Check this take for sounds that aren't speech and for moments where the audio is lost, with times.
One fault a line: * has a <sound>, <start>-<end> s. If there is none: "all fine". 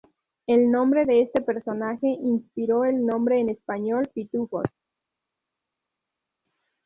all fine